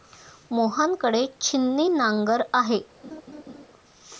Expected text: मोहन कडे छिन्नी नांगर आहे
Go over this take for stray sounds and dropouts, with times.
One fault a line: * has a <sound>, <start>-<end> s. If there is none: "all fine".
* has a laugh, 3.0-3.6 s